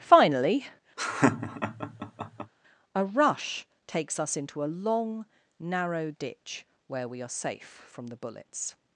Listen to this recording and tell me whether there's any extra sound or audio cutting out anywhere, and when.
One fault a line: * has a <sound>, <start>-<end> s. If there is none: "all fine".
* has a laugh, 1.0-2.5 s